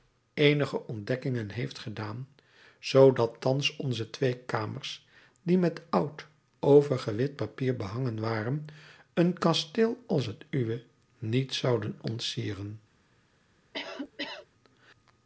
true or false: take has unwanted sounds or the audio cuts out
true